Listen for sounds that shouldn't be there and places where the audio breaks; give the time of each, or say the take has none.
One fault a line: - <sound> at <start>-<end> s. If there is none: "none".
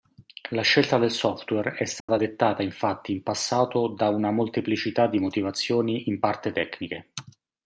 - dropout at 2.0-2.1 s